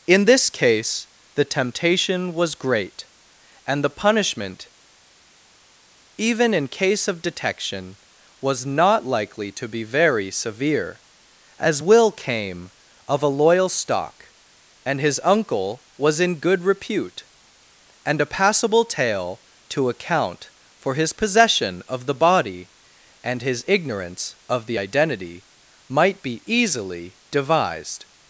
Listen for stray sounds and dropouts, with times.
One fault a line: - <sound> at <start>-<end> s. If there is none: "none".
none